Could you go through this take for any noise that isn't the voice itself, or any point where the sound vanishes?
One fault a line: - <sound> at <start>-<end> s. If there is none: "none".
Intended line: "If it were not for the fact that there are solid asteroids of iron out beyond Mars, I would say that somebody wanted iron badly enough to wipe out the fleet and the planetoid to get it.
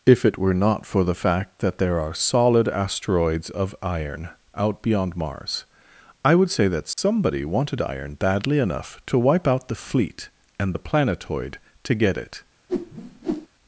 - dropout at 6.9-7.0 s
- whoosh at 12.7-13.5 s